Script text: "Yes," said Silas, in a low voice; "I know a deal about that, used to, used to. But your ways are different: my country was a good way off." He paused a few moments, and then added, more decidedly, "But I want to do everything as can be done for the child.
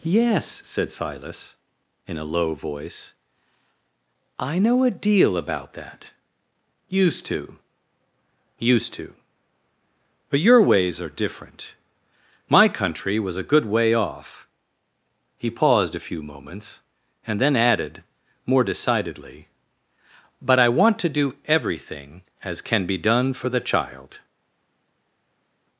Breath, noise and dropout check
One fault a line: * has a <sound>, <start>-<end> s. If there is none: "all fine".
all fine